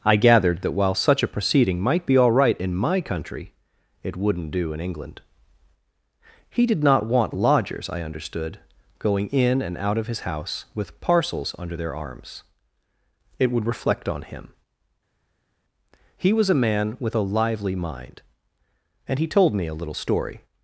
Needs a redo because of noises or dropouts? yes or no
no